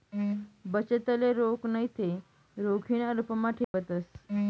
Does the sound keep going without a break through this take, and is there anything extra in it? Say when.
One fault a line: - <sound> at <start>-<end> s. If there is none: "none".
- dropout at 3.6-3.7 s